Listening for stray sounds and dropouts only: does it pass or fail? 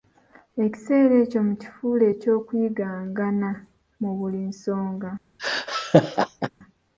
fail